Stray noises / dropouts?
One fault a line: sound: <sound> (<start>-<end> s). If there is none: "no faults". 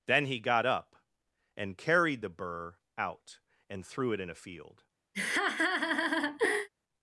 sound: laugh (5.1-6.7 s)